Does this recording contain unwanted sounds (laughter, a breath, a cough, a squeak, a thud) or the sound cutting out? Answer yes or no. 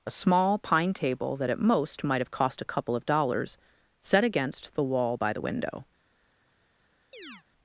yes